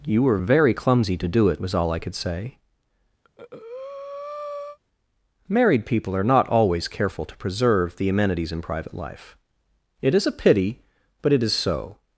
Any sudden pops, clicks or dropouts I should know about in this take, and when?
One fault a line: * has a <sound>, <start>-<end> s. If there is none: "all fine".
* has a breath, 3.2-4.8 s